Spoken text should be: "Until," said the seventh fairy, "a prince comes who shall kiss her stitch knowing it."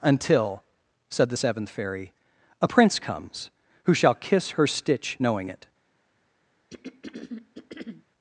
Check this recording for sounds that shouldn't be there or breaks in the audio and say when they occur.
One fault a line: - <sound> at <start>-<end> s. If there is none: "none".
- throat clearing at 6.7-8.1 s